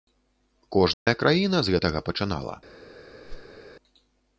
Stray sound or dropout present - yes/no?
yes